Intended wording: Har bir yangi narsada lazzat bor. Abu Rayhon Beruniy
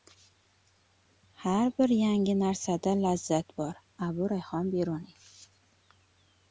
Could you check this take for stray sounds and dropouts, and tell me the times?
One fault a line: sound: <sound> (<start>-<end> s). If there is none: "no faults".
no faults